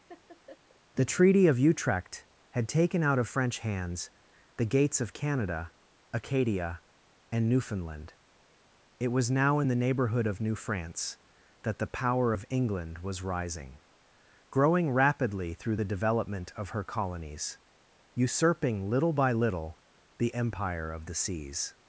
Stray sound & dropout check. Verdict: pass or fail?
fail